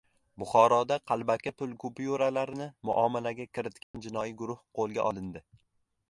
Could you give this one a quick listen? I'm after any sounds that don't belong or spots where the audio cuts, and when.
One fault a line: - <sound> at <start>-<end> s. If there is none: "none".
- dropout at 3.8-3.9 s